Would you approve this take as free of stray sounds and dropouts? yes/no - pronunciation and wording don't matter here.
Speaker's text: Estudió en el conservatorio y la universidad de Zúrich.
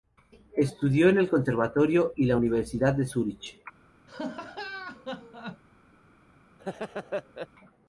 no